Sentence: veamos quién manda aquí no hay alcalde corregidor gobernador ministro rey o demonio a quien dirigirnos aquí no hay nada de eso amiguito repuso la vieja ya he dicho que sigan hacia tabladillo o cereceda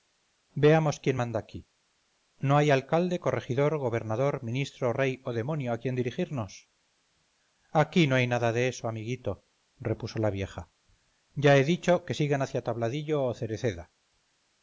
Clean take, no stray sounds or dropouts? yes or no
yes